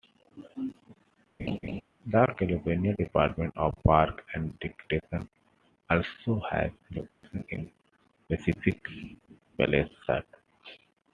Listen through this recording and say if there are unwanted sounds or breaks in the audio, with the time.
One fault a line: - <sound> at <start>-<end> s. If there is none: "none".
- laugh at 1.4-1.8 s
- dropout at 7.1-7.2 s